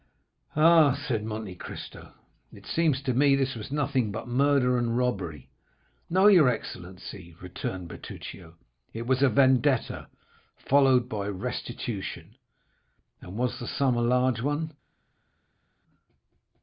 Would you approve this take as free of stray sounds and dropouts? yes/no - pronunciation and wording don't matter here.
yes